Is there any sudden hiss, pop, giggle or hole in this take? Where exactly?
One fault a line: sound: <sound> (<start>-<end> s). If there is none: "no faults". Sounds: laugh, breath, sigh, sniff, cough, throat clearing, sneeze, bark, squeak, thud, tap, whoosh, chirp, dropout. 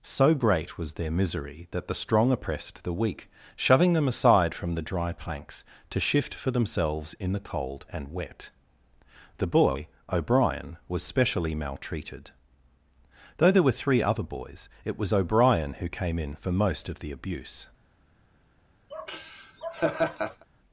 sound: laugh (18.9-20.5 s)